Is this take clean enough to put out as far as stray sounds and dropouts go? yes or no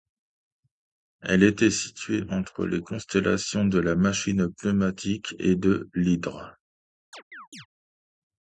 no